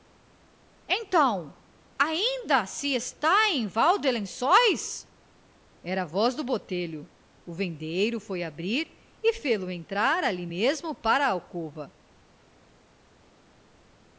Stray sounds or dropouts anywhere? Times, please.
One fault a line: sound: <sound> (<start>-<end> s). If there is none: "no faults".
no faults